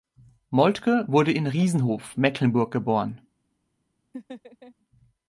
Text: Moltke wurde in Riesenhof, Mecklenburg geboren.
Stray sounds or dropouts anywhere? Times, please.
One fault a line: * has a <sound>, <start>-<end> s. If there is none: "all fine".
* has a laugh, 4.1-4.7 s